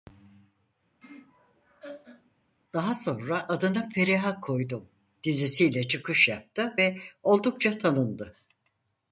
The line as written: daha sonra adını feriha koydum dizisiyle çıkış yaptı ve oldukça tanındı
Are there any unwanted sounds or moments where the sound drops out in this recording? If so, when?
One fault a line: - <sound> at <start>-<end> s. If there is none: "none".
- laugh at 1.0-2.3 s